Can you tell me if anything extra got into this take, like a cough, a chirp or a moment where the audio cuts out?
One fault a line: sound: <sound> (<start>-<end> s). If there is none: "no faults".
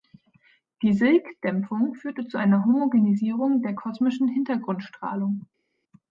no faults